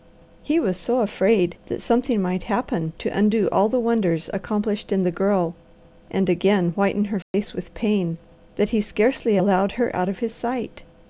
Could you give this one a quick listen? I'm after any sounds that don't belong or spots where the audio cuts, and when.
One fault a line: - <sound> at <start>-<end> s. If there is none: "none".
- dropout at 7.2-7.3 s